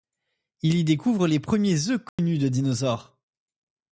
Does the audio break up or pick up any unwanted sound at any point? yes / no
yes